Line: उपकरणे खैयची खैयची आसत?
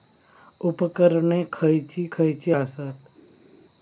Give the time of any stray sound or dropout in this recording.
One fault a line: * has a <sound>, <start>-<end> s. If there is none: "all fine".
all fine